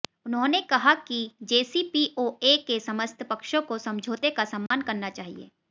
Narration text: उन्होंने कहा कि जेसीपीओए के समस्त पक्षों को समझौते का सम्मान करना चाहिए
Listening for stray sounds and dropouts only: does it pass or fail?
fail